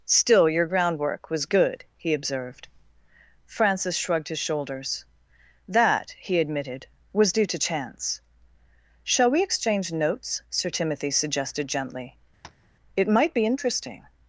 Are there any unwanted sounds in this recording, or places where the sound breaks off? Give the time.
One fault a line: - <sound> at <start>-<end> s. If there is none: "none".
- tap at 12.4-12.7 s